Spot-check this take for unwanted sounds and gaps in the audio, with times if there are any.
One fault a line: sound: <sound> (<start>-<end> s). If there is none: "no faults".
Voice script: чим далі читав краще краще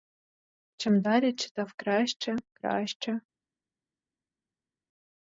no faults